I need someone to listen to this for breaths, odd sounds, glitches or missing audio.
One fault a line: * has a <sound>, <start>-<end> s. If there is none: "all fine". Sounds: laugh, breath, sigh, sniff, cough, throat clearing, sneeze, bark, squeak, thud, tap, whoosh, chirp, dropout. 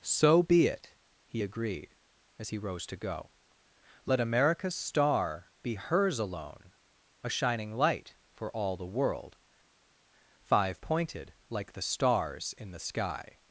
all fine